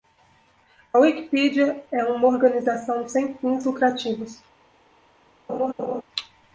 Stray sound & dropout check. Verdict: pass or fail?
fail